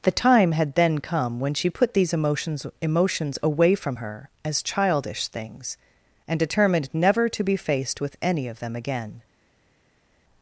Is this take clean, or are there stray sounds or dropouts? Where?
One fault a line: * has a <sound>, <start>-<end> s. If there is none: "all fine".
all fine